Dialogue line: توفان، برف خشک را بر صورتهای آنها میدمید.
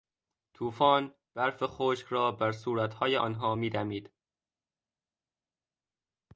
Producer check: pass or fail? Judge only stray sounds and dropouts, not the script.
pass